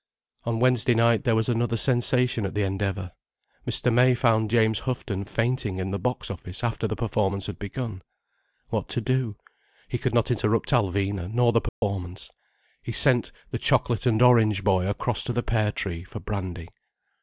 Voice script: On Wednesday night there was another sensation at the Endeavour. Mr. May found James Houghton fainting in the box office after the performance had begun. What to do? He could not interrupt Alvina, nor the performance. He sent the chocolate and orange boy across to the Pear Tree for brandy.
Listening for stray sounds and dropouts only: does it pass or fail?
fail